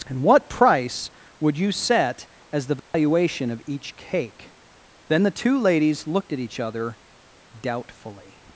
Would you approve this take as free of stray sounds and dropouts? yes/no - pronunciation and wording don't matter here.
no